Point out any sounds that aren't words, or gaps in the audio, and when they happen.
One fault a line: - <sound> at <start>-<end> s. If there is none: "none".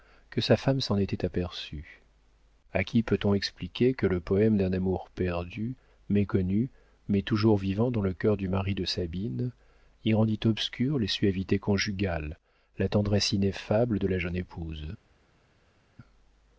none